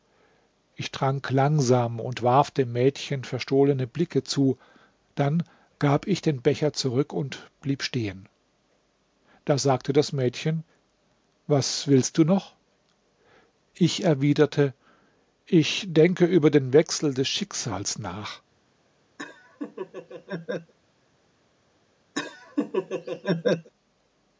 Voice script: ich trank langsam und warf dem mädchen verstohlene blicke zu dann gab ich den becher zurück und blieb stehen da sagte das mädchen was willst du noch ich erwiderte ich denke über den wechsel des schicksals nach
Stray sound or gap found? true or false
true